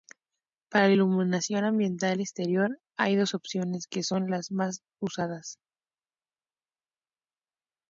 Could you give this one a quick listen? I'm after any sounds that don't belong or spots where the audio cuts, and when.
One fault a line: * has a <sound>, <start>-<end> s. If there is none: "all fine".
all fine